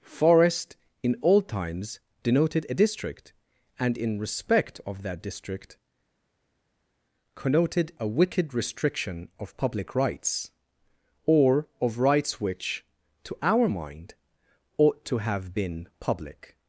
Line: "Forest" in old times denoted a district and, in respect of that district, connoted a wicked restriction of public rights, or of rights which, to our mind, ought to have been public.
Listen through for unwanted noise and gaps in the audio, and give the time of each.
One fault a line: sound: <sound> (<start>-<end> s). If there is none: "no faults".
no faults